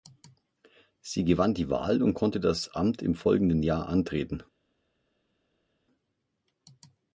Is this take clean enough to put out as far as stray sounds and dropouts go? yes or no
yes